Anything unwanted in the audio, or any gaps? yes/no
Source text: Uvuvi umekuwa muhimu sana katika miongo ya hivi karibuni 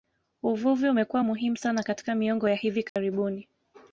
yes